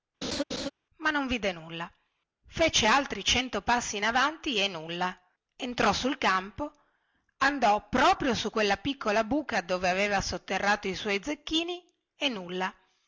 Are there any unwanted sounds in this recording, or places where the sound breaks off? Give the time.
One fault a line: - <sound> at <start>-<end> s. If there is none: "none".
- laugh at 0.2-0.7 s